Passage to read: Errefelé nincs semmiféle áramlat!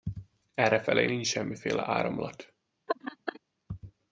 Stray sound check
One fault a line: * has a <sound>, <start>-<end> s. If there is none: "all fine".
* has a laugh, 2.9-3.4 s